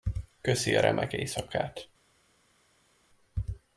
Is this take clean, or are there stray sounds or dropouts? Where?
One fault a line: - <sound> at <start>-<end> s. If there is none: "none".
none